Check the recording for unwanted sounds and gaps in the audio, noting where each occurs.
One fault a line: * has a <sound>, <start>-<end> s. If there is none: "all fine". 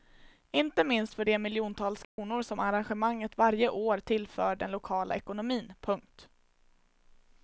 * has a dropout, 2.0-2.2 s